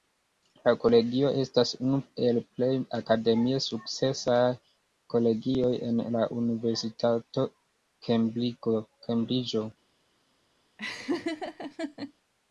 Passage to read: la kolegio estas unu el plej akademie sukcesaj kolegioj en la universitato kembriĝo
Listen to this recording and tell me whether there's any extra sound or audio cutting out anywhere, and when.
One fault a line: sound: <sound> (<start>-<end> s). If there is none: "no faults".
sound: laugh (10.8-12.1 s)